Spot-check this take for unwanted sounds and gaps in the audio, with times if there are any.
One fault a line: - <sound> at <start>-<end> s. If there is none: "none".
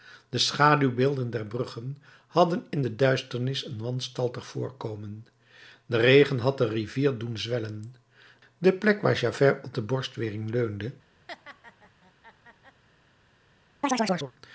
- laugh at 11.3-12.8 s
- chirp at 13.8-14.3 s